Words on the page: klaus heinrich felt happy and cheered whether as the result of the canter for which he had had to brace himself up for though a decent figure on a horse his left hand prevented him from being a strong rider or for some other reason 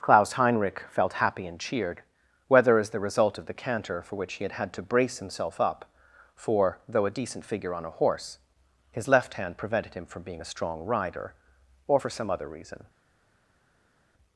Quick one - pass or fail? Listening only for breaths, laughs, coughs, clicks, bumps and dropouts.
pass